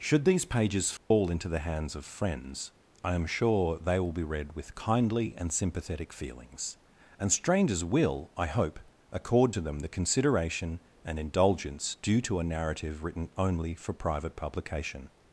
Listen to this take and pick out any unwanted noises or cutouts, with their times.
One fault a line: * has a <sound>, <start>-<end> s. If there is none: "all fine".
* has a dropout, 1.0-1.1 s